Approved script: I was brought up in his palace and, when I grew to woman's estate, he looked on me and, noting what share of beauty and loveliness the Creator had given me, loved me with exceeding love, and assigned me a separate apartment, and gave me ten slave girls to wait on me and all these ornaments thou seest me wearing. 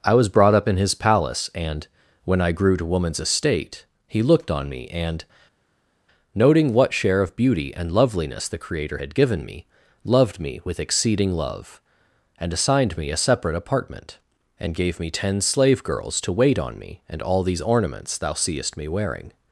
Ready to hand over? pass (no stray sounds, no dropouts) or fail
pass